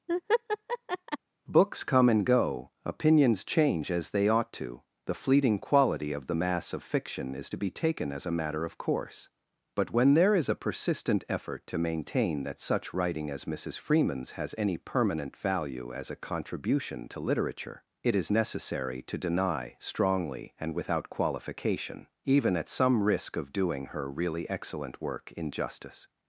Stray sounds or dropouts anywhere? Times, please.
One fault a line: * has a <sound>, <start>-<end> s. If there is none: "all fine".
* has a laugh, 0.1-1.2 s